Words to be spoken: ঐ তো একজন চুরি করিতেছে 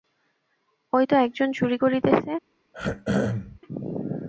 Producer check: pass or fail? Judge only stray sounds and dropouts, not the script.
fail